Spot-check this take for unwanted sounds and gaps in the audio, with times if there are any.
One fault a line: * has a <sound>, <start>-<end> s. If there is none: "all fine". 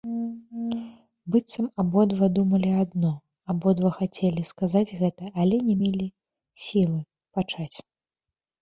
all fine